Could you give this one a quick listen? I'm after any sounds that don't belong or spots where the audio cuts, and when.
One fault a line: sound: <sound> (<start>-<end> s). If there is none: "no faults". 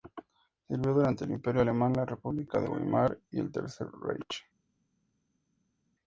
no faults